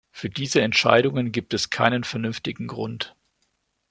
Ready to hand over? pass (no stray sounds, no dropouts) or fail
pass